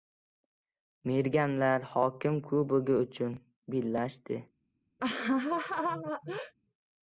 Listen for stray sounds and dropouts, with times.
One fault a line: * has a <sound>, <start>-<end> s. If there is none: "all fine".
* has a laugh, 5.0-6.5 s